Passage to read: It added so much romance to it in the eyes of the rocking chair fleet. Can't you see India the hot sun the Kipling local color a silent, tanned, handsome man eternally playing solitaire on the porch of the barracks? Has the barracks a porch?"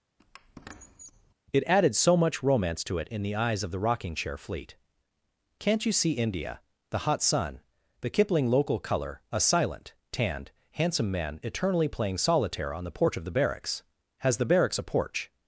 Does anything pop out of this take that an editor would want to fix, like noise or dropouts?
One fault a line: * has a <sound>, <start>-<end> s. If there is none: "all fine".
* has a squeak, 0.2-1.3 s